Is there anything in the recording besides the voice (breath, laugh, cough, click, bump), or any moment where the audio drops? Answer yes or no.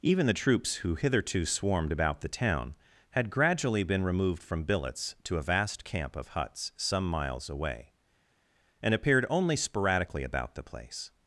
no